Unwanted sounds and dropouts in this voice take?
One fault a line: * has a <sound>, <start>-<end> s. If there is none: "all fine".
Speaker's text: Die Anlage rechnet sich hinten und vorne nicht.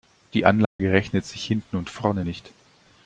* has a dropout, 0.6-0.8 s